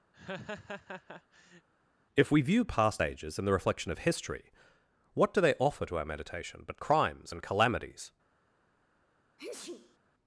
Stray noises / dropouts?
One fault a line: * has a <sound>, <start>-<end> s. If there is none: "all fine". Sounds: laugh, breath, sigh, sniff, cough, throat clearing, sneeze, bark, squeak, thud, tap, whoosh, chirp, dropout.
* has a laugh, 0.1-1.7 s
* has a sneeze, 9.4-10.0 s